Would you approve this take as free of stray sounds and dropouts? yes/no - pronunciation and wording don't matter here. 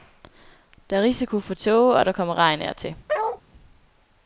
no